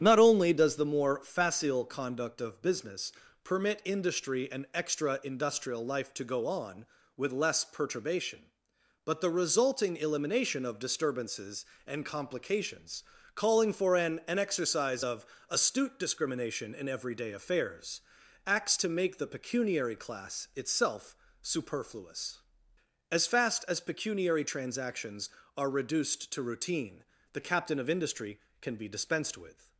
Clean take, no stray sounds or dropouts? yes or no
yes